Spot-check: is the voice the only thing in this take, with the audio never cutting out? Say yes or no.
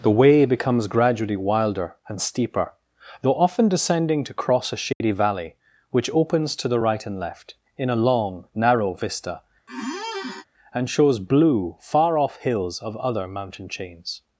no